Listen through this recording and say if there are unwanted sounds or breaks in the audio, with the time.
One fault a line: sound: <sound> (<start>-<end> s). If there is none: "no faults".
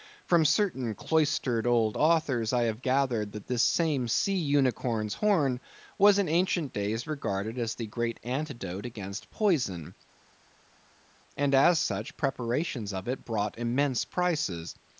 no faults